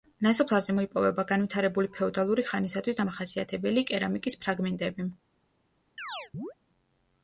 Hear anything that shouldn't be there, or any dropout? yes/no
yes